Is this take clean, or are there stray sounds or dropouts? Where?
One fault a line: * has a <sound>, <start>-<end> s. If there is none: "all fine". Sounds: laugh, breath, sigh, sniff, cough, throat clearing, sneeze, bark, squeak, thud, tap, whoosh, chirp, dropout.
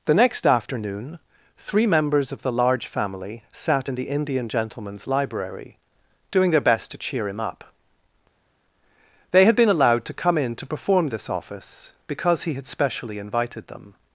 all fine